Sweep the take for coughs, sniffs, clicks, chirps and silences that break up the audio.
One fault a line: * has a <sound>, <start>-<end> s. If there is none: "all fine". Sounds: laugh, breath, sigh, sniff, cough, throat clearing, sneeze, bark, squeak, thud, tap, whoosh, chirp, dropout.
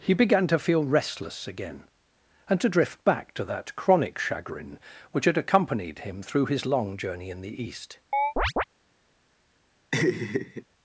* has a chirp, 8.1-8.6 s
* has a laugh, 9.9-10.6 s